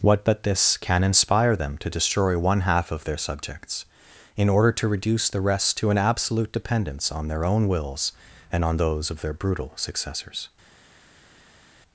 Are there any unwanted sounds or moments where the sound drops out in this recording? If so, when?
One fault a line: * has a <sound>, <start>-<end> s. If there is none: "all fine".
all fine